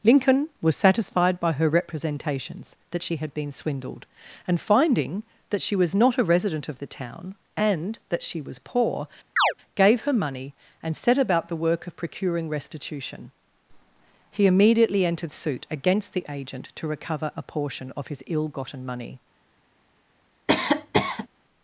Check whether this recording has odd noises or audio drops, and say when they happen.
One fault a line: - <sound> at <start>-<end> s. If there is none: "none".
- chirp at 9.4-9.5 s
- cough at 20.5-21.3 s